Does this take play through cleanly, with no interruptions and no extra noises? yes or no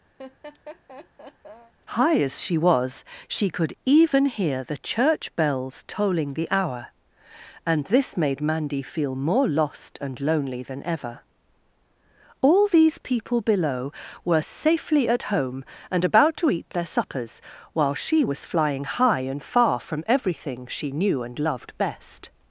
no